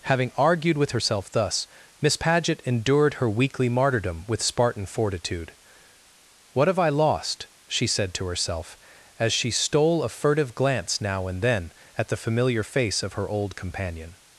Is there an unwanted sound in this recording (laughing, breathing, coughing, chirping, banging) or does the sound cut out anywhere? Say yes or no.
no